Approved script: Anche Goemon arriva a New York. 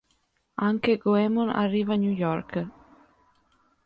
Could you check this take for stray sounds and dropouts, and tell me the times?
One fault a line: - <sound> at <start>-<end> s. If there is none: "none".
none